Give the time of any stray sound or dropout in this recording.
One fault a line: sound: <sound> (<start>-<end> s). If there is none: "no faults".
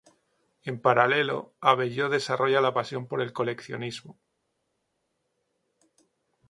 no faults